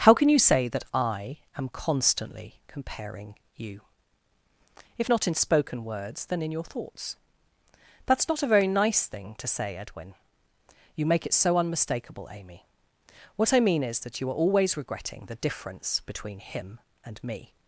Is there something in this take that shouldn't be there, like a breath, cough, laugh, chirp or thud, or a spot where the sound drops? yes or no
no